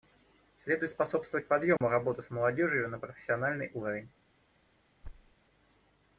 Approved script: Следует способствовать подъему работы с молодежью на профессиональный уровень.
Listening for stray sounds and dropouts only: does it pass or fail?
fail